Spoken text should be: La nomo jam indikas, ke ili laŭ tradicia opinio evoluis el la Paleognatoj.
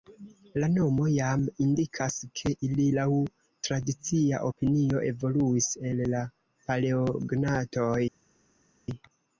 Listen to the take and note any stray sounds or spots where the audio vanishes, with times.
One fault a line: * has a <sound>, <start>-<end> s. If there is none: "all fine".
all fine